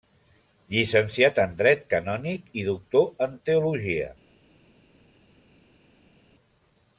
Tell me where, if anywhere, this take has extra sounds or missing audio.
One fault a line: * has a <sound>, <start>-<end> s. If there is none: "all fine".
all fine